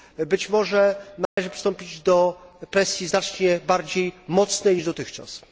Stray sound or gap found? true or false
true